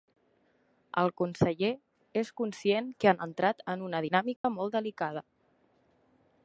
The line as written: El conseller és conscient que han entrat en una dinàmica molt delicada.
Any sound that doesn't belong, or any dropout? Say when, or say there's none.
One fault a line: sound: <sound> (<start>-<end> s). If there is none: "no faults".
sound: dropout (4.4-4.4 s)